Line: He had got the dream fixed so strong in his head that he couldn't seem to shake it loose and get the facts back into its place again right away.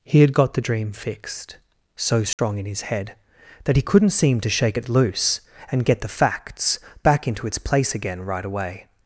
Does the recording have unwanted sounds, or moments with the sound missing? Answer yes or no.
yes